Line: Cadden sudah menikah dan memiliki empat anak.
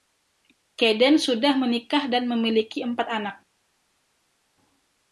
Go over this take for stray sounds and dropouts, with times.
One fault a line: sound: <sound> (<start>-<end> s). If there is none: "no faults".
no faults